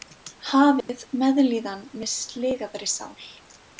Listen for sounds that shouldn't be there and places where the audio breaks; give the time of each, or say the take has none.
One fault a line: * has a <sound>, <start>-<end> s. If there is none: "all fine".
* has a dropout, 0.8-0.9 s